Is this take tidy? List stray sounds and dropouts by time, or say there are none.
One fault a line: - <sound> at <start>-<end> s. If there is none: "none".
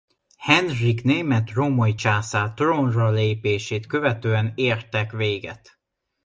none